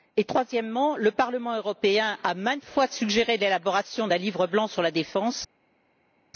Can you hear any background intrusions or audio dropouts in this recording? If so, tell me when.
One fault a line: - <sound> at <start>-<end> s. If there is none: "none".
none